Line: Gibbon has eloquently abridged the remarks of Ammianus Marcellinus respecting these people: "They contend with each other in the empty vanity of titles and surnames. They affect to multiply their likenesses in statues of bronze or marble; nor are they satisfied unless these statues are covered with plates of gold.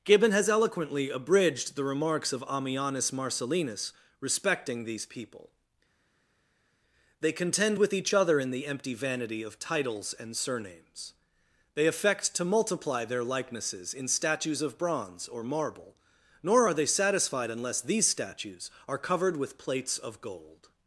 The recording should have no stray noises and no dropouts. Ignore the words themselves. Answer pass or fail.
pass